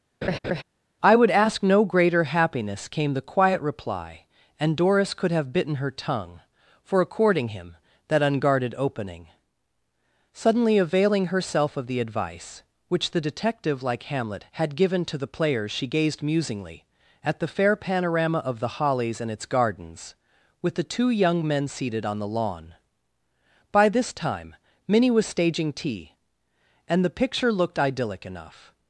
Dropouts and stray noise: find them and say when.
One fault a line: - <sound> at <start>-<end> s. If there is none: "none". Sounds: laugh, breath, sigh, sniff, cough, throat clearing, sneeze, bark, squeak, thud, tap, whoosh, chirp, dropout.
- laugh at 0.2-0.6 s